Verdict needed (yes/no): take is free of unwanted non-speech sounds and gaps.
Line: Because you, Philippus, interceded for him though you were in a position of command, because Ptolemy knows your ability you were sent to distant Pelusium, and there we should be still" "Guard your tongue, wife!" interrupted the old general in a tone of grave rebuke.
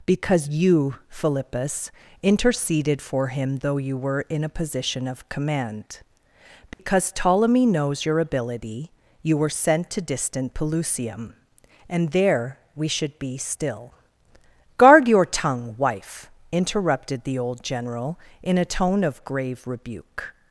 no